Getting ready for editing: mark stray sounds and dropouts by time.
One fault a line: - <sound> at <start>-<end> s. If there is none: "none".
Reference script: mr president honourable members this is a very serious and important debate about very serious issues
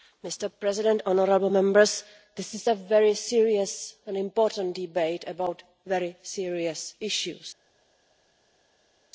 none